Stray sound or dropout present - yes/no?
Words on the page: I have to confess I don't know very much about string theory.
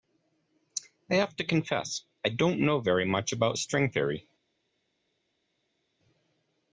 no